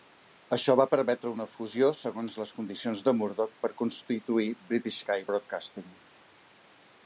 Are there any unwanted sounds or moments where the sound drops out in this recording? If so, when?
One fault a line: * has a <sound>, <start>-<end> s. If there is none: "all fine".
all fine